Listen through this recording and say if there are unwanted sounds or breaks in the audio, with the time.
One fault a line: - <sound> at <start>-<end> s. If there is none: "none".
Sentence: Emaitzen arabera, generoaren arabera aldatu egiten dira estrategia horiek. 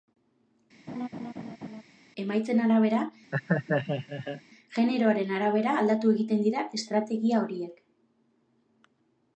- laugh at 0.9-1.8 s
- laugh at 3.3-4.4 s